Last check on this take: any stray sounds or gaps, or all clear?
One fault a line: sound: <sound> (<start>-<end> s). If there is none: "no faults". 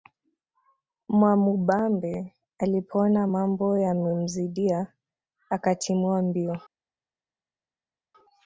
no faults